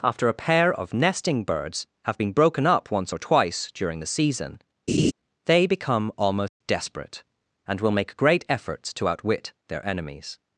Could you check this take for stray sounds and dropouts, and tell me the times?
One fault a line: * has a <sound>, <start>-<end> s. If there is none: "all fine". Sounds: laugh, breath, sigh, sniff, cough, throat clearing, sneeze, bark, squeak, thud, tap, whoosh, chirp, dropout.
* has a laugh, 4.9-5.1 s
* has a dropout, 6.5-6.6 s